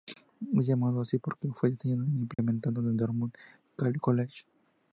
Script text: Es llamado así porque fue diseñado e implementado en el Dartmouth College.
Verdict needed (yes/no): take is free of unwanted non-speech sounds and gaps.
no